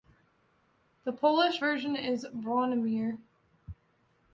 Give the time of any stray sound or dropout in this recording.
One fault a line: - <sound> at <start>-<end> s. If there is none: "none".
none